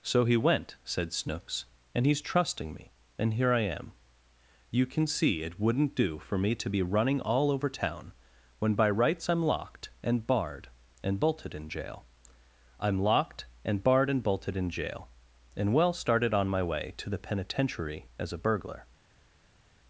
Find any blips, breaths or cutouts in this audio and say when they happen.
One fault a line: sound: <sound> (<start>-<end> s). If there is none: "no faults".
no faults